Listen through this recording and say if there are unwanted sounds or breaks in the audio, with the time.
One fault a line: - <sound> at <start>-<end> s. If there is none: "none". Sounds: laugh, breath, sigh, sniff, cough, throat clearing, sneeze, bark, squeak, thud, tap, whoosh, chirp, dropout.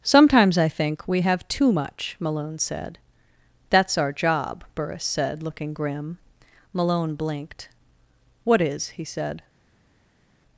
none